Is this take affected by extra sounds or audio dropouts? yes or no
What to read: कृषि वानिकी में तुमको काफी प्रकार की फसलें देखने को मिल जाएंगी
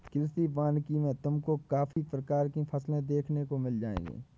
yes